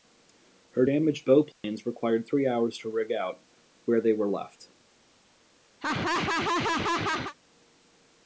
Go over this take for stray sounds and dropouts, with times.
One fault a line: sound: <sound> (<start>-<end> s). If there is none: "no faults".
sound: dropout (1.5-1.6 s)
sound: laugh (5.8-7.3 s)